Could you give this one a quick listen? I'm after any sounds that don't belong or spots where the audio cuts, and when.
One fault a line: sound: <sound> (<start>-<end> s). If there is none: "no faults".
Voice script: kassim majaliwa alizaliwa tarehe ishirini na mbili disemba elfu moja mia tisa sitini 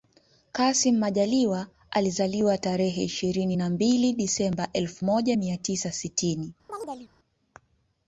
sound: chirp (6.7-7.1 s)